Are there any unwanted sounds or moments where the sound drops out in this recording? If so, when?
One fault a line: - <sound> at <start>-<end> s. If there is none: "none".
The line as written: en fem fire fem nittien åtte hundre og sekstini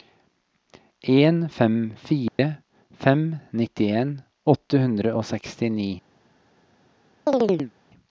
- dropout at 2.3-2.4 s
- chirp at 7.3-7.7 s